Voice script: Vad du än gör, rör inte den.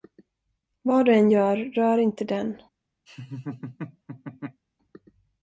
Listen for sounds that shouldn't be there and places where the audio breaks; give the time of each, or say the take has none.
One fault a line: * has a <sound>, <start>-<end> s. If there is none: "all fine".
* has a laugh, 3.1-4.6 s